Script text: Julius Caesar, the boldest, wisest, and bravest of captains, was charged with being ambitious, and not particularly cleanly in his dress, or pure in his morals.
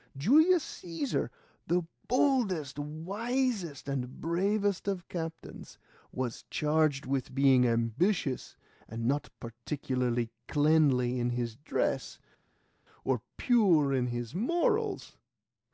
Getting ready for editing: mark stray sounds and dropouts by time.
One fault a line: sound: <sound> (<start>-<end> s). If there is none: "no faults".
no faults